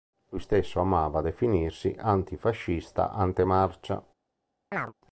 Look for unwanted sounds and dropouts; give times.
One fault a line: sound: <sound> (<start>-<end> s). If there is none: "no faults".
sound: chirp (4.7-4.9 s)